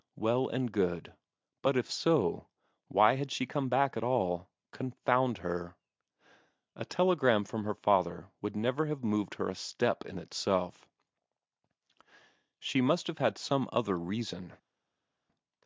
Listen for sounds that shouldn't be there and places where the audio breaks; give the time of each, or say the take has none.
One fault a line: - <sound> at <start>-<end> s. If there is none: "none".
none